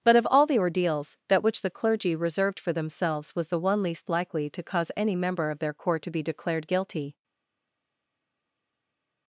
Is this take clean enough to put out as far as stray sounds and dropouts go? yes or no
yes